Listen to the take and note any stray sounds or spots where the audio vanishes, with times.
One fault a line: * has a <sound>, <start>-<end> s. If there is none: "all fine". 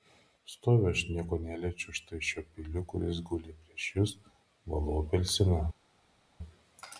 all fine